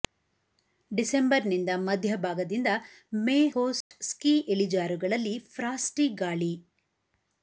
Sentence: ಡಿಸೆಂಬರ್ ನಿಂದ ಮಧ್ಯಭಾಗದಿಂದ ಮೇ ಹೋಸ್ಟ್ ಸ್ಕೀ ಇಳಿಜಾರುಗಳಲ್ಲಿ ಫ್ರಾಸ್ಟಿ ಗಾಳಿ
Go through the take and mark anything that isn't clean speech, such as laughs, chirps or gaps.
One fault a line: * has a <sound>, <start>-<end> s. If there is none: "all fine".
* has a dropout, 3.8-3.9 s